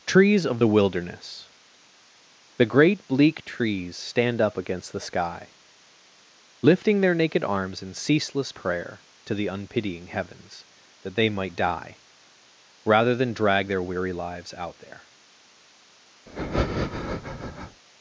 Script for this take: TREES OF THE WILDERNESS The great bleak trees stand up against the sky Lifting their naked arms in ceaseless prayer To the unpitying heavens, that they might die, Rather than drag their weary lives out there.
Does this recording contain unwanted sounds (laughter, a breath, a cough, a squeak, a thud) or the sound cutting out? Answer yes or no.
yes